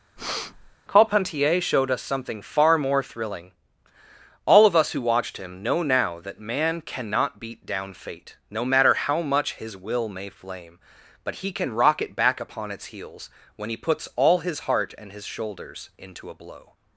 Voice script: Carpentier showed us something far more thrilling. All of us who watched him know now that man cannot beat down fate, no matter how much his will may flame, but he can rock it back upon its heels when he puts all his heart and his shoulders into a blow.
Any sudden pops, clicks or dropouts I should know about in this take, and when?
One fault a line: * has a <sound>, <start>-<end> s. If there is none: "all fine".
* has a breath, 0.2-0.8 s